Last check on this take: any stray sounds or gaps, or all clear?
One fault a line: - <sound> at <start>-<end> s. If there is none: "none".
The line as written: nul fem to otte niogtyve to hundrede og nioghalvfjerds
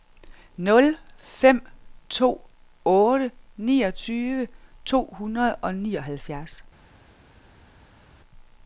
none